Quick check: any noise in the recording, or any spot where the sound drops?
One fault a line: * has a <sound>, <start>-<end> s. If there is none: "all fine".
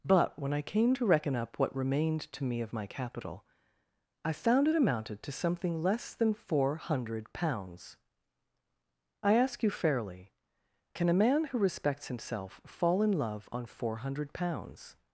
all fine